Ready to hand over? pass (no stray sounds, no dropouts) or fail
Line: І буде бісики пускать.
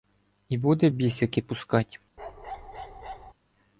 fail